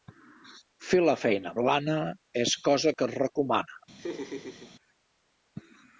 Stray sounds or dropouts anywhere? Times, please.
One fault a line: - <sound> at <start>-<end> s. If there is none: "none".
- laugh at 4.0-4.8 s